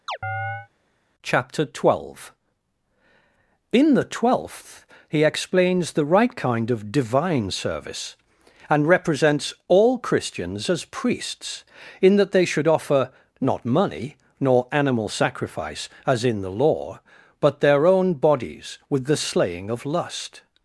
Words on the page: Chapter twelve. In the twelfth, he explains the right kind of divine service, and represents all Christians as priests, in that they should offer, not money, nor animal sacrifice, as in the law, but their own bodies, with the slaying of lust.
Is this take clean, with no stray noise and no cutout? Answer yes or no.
no